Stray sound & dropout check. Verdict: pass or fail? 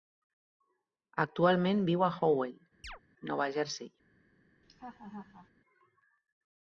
fail